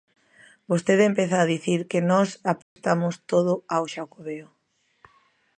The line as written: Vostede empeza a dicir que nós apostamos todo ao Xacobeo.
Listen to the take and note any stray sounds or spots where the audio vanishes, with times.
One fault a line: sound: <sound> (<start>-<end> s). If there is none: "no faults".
sound: dropout (2.6-2.8 s)